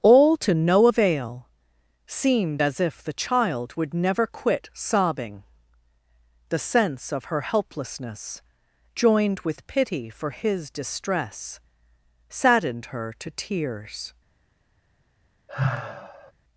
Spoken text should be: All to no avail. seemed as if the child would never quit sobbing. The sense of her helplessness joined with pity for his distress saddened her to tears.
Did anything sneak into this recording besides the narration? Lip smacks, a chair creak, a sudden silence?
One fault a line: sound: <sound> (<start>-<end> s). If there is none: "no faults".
sound: sigh (15.5-16.3 s)